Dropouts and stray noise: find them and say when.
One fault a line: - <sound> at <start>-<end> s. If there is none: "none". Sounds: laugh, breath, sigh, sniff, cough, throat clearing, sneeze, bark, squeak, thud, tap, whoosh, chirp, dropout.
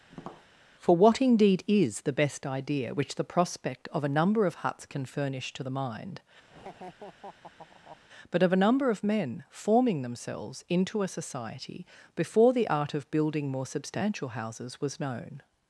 - tap at 0.1-0.5 s
- laugh at 6.5-8.0 s